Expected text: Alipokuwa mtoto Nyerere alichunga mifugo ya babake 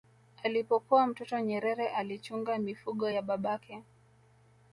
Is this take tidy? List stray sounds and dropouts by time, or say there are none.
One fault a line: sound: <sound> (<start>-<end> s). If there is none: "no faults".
no faults